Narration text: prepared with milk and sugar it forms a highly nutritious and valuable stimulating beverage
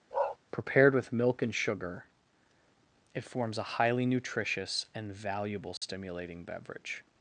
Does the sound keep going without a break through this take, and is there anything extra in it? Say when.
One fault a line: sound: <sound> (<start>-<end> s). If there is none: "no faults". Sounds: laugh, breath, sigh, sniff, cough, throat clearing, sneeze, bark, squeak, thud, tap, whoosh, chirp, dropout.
sound: bark (0.1-0.4 s)
sound: dropout (5.8-5.8 s)